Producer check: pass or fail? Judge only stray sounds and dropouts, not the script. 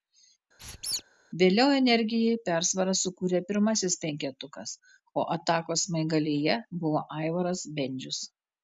fail